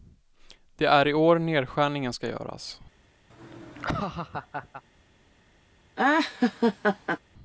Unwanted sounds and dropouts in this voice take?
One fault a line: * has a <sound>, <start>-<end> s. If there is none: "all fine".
* has a laugh, 3.3-4.8 s
* has a laugh, 6.0-7.2 s